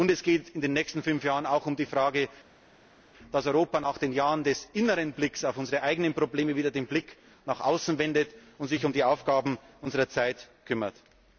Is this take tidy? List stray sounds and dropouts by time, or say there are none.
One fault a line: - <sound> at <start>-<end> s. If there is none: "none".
none